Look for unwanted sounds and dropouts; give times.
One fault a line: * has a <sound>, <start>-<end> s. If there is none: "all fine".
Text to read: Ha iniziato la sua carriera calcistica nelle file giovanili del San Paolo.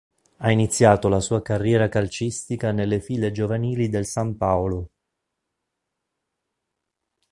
all fine